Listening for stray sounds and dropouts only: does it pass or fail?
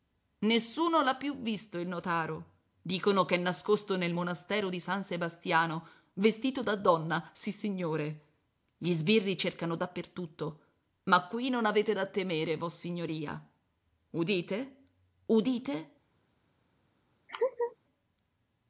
fail